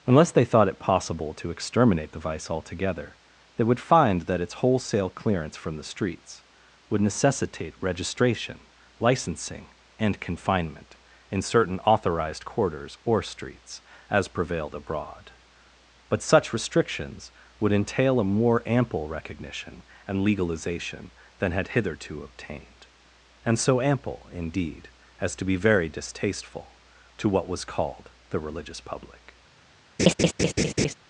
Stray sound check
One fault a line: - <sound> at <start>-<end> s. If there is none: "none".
- laugh at 30.0-30.9 s